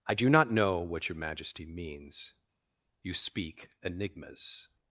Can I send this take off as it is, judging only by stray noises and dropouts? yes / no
yes